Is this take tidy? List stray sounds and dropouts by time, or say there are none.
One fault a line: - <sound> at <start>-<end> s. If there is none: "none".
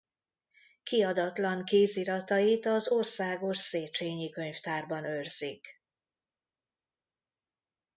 none